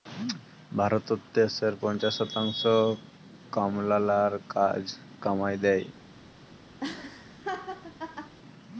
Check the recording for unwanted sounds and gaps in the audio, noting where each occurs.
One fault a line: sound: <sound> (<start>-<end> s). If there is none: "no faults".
sound: laugh (6.8-8.3 s)